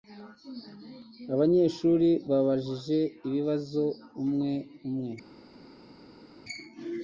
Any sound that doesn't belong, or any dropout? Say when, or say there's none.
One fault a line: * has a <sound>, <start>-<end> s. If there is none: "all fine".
all fine